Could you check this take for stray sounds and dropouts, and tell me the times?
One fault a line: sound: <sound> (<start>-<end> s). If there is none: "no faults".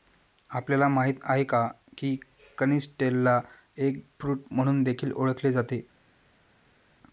no faults